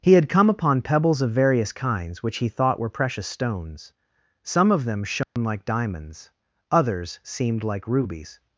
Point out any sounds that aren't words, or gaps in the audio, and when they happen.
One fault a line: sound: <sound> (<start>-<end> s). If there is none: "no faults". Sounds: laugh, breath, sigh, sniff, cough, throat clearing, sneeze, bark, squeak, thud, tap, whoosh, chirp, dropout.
sound: dropout (5.2-5.4 s)